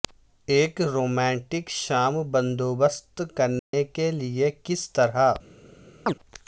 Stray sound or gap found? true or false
true